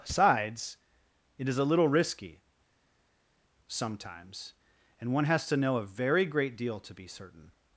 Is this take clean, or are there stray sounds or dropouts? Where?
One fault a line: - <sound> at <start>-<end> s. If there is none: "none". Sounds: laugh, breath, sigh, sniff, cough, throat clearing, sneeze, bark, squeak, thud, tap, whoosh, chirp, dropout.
none